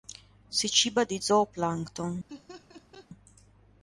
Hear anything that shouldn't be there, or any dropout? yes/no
yes